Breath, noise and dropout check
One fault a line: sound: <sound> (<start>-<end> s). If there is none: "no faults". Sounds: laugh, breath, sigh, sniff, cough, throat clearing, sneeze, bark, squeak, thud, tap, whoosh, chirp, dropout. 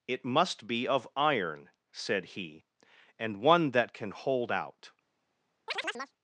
sound: chirp (5.7-6.1 s)